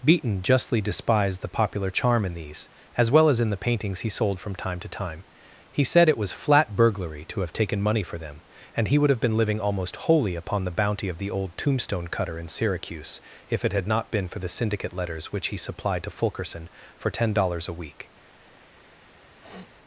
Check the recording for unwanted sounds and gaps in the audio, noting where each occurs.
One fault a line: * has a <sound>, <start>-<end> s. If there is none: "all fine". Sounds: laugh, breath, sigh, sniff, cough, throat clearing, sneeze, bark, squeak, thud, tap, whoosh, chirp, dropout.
* has a sniff, 19.4-19.7 s